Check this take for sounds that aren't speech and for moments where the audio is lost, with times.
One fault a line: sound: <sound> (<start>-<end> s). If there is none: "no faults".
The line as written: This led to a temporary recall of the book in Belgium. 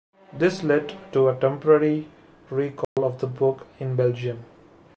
sound: dropout (2.8-3.0 s)